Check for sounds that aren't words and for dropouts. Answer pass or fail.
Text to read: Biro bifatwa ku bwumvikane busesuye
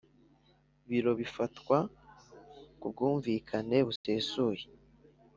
fail